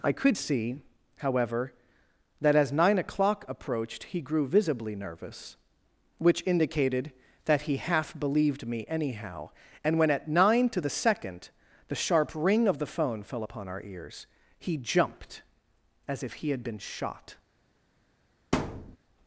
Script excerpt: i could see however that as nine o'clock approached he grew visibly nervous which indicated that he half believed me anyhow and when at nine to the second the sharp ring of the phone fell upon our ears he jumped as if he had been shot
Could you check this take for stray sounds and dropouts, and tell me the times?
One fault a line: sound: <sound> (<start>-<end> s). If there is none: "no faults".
sound: thud (18.5-19.0 s)